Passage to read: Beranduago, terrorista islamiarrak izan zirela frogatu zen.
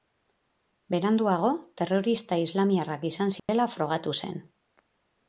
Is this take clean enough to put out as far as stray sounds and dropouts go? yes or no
no